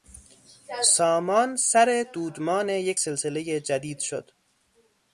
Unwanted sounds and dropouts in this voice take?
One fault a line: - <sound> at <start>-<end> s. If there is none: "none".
none